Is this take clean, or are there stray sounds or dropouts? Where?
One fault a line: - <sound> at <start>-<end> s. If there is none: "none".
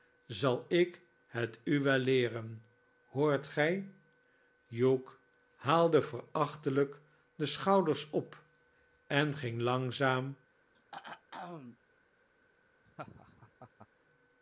- throat clearing at 10.7-11.8 s
- laugh at 12.9-13.9 s